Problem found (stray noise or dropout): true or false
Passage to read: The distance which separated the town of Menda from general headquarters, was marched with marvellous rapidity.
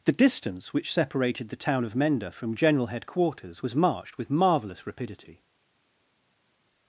false